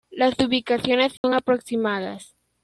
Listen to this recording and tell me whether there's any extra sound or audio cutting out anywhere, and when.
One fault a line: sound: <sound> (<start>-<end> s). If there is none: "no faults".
sound: dropout (1.2-1.2 s)